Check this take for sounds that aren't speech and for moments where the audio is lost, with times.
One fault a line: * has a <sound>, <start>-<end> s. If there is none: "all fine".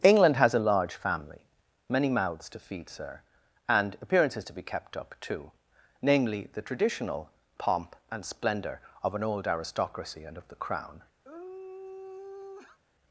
* has a sigh, 11.2-12.8 s